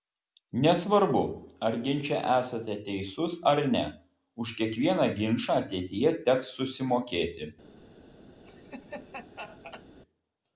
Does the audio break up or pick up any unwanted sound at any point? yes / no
yes